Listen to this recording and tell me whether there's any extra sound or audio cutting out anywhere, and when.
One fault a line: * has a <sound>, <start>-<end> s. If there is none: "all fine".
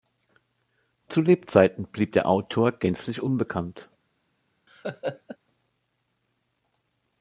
* has a laugh, 4.7-5.4 s